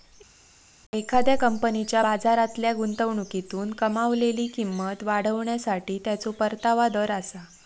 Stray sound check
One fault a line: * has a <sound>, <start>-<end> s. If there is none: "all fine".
all fine